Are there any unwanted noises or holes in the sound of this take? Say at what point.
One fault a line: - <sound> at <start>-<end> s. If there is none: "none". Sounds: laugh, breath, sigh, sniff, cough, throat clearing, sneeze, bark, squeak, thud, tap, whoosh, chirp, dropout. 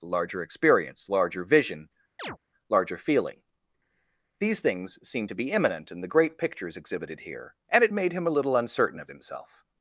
- chirp at 2.2-2.4 s